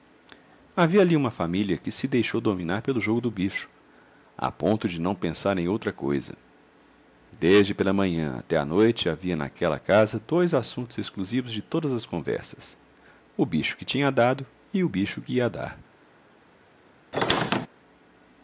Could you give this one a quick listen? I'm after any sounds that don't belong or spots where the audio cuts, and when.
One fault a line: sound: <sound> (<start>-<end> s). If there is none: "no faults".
sound: squeak (17.1-17.7 s)